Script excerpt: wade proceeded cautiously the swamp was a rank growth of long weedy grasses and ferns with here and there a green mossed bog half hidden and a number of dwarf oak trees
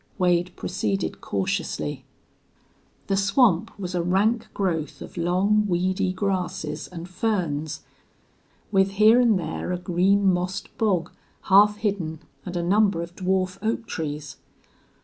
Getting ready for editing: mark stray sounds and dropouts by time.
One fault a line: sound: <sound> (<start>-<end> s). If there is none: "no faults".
no faults